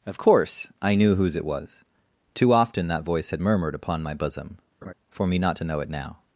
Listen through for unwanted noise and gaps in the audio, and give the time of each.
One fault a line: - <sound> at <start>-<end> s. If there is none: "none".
- laugh at 4.8-4.9 s